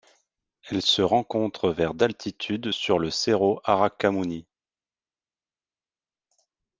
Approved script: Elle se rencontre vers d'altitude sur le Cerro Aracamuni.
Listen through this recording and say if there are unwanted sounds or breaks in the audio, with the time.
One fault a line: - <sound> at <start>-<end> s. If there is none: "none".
none